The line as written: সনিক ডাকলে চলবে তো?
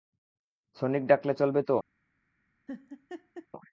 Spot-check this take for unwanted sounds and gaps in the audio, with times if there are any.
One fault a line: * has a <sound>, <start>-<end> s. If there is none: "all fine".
* has a laugh, 2.7-3.5 s